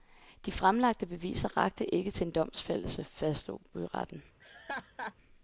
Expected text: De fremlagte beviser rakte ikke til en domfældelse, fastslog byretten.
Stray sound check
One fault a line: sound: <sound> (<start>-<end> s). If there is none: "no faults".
sound: laugh (4.4-5.1 s)